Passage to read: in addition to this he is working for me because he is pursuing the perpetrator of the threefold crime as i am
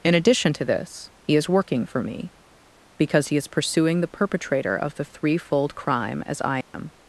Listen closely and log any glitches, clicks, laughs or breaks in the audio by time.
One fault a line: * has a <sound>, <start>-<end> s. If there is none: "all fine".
* has a dropout, 6.6-6.7 s